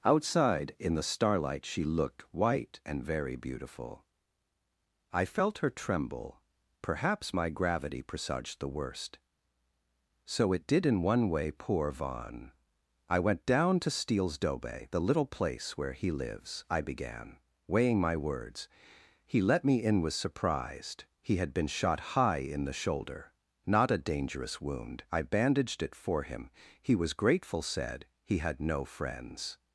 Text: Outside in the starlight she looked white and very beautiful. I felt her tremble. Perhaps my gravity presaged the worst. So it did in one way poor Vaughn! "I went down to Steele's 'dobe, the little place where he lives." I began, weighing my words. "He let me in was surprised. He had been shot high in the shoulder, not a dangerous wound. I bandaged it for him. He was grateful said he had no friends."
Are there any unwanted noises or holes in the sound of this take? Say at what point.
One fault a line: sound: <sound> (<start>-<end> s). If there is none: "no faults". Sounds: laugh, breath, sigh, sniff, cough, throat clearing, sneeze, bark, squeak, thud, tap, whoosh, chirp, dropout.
no faults